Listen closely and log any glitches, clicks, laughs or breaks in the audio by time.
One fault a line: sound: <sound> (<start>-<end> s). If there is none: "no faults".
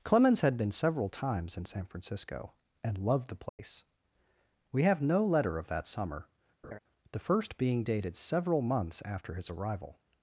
sound: dropout (3.5-3.6 s)
sound: laugh (6.6-6.8 s)